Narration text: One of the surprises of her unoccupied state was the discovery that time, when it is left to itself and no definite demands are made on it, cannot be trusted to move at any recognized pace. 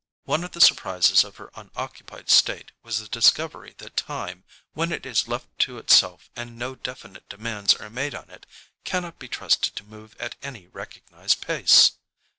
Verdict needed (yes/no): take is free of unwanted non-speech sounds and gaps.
yes